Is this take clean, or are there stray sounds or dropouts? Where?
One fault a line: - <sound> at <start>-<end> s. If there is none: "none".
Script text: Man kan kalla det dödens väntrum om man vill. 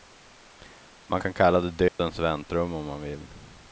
- dropout at 1.9-2.0 s